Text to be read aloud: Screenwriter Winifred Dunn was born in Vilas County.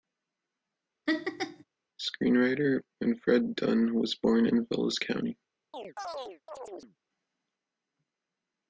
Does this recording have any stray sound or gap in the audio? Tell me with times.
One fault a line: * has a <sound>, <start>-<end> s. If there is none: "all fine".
* has a laugh, 1.1-1.6 s
* has a chirp, 5.7-7.0 s